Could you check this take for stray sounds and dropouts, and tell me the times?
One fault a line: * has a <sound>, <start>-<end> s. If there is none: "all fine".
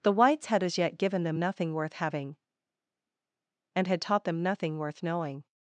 all fine